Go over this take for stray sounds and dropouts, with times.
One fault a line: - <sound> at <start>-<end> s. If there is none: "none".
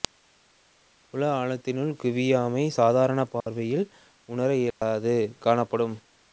- dropout at 3.4-3.5 s
- dropout at 4.7-4.8 s